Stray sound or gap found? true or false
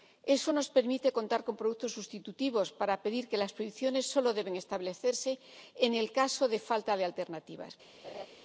true